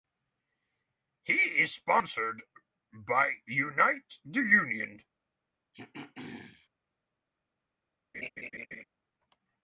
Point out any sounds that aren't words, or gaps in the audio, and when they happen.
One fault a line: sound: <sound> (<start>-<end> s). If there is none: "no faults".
sound: throat clearing (5.7-6.7 s)
sound: laugh (8.1-8.8 s)